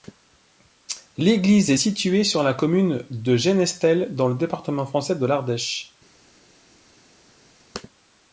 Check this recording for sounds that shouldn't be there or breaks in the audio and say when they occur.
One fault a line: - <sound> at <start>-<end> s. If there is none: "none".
none